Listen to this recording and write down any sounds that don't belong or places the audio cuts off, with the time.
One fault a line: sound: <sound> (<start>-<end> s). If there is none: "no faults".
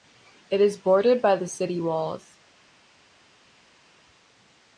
no faults